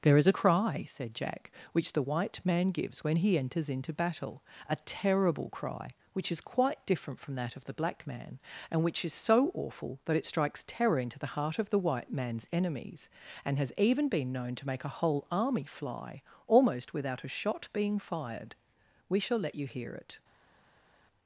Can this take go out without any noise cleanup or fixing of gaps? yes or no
yes